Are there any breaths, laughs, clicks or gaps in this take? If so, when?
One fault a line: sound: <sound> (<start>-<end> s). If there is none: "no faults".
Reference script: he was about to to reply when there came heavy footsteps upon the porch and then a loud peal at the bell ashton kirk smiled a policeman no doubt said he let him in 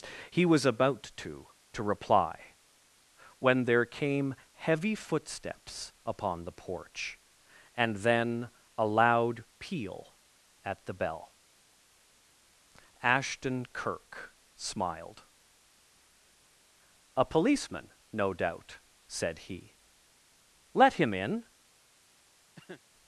sound: cough (22.6-22.8 s)